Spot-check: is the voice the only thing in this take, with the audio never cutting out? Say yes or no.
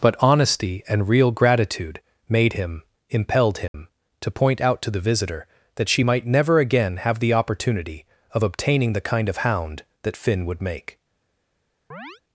no